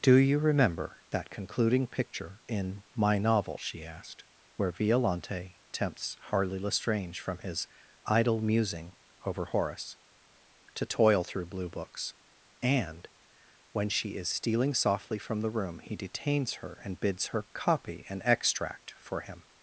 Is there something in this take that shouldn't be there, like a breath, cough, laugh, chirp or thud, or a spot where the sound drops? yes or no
no